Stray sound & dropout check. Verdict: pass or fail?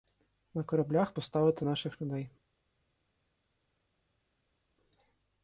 pass